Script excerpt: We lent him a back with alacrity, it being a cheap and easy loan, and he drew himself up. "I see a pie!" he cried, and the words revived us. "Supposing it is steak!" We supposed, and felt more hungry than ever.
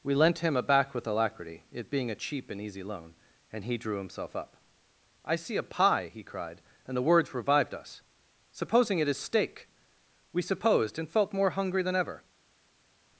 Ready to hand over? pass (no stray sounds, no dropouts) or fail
pass